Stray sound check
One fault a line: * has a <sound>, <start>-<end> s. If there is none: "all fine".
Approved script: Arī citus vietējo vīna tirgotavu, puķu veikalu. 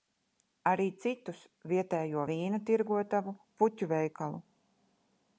all fine